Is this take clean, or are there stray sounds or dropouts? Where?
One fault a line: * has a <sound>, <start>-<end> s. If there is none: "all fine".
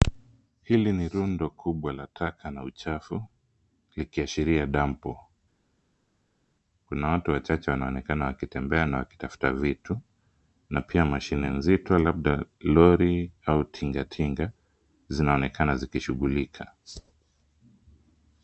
all fine